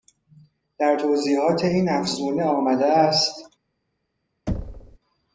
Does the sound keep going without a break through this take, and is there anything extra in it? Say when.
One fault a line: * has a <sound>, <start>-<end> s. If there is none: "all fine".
* has a thud, 4.5-5.0 s